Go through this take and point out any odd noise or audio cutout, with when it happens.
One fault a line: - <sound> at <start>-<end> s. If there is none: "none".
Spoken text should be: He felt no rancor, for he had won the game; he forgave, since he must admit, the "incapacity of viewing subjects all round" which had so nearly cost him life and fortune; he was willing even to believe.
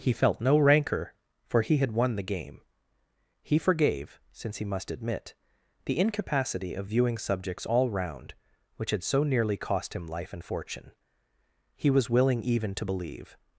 none